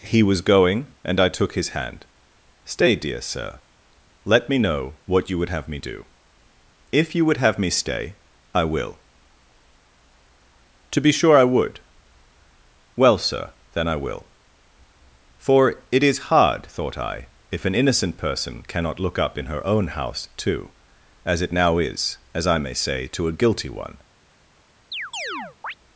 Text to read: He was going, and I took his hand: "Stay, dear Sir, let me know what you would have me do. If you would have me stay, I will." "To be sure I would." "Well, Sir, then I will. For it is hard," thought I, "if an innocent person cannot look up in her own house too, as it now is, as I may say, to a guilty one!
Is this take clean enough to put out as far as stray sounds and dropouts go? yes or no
no